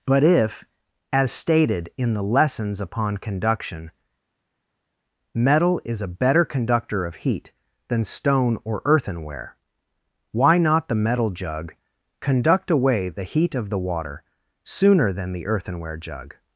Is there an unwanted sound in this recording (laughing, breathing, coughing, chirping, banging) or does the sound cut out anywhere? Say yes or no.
no